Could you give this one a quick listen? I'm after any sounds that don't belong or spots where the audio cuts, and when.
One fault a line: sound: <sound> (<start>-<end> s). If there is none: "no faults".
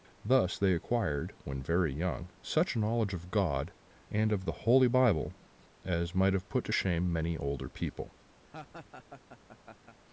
sound: laugh (8.4-10.0 s)